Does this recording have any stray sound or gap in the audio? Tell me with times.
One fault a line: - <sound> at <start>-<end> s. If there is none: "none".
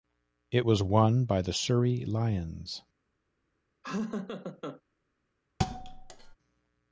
- laugh at 3.8-4.8 s
- thud at 5.6-6.4 s